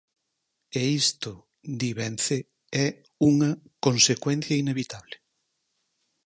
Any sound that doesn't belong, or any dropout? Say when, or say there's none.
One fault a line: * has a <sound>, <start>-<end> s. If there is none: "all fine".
all fine